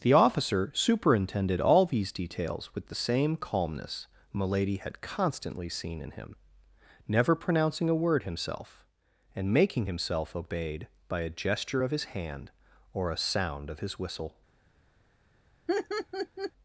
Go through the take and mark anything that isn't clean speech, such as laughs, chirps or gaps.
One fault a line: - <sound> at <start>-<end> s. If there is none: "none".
- laugh at 15.7-16.5 s